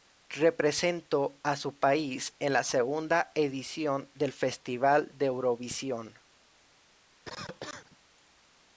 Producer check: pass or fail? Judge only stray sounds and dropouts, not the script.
fail